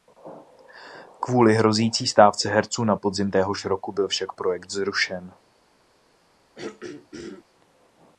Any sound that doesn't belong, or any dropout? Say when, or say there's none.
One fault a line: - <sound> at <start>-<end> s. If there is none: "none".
- throat clearing at 6.6-7.4 s